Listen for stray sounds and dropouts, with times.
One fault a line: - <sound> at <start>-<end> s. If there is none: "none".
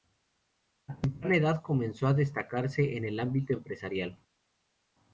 none